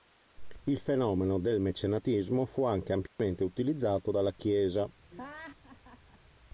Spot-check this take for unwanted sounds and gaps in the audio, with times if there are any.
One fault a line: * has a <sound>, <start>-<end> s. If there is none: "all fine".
* has a dropout, 3.1-3.2 s
* has a laugh, 5.1-6.2 s